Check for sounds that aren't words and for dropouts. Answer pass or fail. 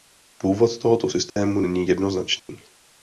fail